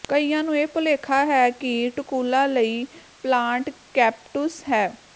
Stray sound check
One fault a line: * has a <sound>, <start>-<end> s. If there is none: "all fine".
all fine